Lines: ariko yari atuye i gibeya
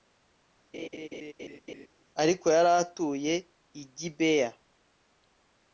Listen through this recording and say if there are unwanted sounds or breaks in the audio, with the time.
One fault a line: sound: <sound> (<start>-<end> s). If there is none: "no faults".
sound: laugh (0.7-1.9 s)